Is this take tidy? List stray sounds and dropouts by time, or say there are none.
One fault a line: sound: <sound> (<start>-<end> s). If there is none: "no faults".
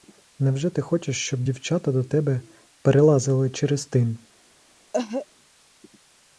sound: cough (4.9-5.3 s)